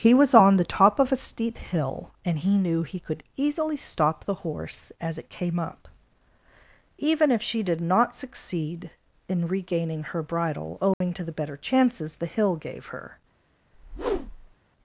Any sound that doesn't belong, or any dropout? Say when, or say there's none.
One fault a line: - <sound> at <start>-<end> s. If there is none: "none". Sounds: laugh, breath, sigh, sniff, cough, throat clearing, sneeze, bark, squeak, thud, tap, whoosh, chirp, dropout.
- dropout at 10.9-11.0 s
- whoosh at 13.7-14.5 s